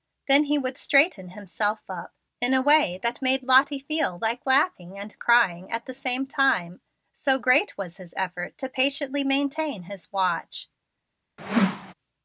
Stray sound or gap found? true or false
true